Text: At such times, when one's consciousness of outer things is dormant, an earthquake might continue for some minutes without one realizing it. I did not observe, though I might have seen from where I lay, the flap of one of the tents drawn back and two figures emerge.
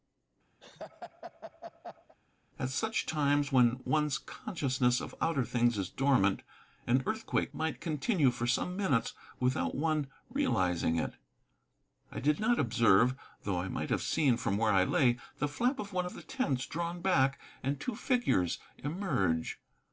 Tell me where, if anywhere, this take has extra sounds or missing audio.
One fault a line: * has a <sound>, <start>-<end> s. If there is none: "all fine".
* has a laugh, 0.6-2.2 s